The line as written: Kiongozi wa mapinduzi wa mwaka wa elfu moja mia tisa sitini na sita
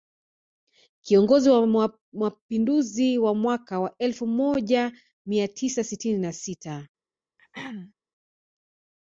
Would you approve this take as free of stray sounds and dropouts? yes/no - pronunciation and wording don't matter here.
no